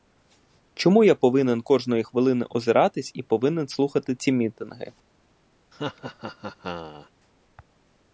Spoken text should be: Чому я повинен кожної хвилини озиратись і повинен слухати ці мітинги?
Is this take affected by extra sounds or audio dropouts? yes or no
yes